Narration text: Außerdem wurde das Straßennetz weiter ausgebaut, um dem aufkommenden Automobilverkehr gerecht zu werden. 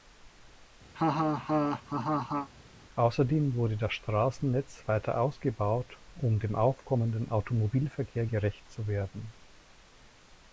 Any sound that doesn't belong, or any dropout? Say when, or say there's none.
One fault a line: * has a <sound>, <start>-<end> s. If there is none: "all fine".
* has a laugh, 0.9-2.5 s